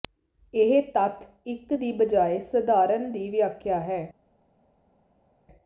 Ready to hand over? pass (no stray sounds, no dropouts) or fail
pass